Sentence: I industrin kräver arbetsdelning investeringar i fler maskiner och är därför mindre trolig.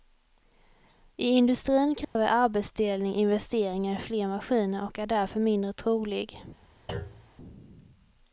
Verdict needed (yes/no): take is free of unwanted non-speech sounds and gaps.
no